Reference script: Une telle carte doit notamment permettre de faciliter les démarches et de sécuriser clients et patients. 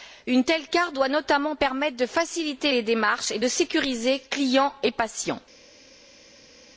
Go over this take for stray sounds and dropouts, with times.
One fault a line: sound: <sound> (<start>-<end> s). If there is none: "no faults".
no faults